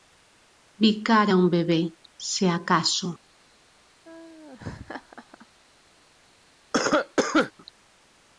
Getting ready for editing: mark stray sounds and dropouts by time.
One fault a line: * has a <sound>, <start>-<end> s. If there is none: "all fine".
* has a laugh, 4.0-5.5 s
* has a cough, 6.7-7.5 s